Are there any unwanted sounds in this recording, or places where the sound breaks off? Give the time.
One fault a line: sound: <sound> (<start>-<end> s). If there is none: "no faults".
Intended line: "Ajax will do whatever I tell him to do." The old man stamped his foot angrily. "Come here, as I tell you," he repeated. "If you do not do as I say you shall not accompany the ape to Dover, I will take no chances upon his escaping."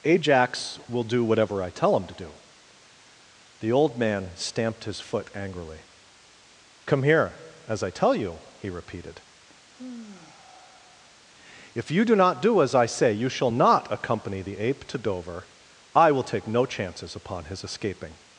sound: sigh (9.7-11.2 s)